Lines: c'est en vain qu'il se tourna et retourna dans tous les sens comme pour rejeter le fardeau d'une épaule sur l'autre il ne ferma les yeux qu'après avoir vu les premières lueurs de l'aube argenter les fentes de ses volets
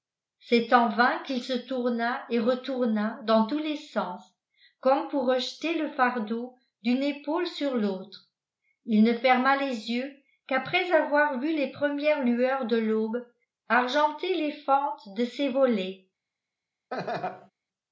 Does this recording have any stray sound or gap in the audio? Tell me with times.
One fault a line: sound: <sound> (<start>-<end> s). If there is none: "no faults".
sound: laugh (16.9-17.5 s)